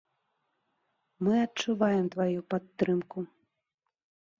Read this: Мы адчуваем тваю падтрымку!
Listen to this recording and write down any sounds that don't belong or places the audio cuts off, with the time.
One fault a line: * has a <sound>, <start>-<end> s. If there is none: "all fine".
all fine